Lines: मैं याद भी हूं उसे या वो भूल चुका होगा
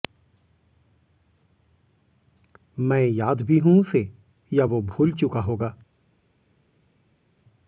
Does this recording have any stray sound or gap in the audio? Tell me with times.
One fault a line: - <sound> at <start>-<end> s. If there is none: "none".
none